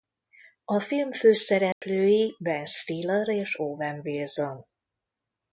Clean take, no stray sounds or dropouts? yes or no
no